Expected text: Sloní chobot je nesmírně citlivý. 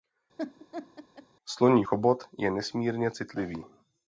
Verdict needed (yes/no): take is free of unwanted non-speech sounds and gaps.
no